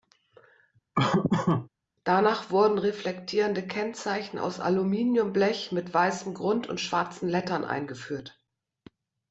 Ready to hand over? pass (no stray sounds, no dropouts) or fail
fail